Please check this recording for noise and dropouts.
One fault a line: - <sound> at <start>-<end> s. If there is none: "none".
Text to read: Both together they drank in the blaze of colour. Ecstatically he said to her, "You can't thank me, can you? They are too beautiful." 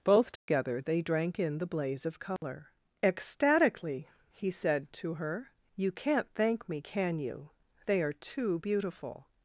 - dropout at 0.4-0.5 s
- dropout at 2.4-2.4 s